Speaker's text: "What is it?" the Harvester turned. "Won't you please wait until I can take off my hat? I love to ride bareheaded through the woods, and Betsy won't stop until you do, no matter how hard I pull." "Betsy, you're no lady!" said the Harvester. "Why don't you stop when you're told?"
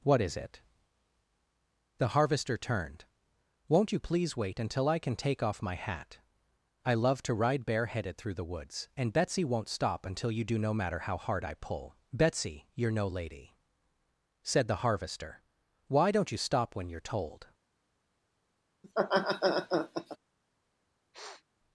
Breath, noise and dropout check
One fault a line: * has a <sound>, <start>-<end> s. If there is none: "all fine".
* has a laugh, 18.8-20.2 s
* has a sniff, 21.1-21.4 s